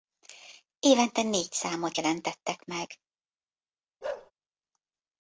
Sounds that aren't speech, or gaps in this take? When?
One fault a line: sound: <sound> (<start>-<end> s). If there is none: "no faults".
sound: bark (4.0-4.3 s)